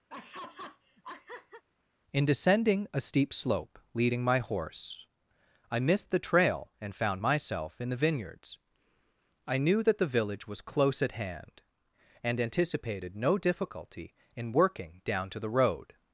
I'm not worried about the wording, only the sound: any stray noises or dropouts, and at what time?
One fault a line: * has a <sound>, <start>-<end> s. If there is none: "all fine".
* has a laugh, 0.1-1.6 s